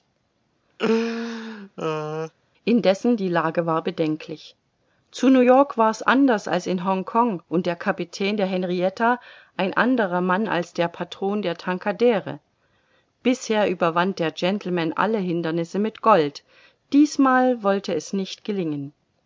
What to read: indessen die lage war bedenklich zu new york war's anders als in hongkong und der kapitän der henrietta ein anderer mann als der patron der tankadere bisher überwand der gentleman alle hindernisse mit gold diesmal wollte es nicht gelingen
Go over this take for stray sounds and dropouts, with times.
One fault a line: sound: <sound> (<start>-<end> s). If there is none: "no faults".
sound: laugh (0.8-2.3 s)